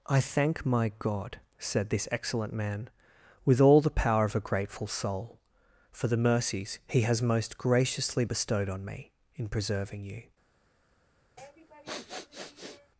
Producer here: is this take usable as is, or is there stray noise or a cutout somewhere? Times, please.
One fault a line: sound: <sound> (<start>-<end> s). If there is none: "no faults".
sound: sniff (11.4-12.9 s)